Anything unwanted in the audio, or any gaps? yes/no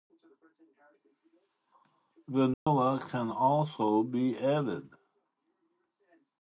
yes